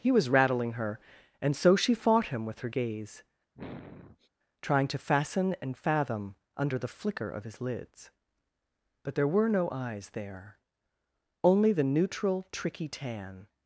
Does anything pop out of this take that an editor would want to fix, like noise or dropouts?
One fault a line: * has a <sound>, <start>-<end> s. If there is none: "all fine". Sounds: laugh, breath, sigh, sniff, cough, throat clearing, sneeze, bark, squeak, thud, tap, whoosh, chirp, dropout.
* has a sniff, 3.5-4.3 s